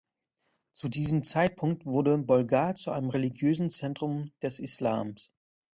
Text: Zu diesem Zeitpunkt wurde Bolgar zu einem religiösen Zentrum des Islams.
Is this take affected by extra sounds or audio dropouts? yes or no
no